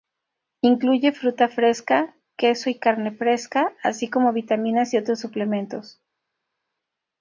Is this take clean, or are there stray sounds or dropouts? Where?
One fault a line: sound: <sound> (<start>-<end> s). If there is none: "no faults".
no faults